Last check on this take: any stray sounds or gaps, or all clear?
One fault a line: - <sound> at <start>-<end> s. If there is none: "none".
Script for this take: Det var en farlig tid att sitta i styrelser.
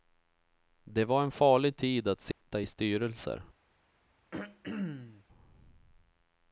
- dropout at 2.3-2.4 s
- throat clearing at 4.3-5.2 s